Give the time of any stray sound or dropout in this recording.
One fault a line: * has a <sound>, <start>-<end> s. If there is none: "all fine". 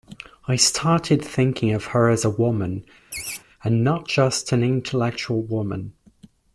* has a laugh, 3.1-3.4 s